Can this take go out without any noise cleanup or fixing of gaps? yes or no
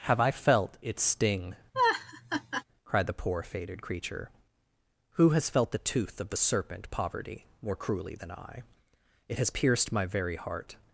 no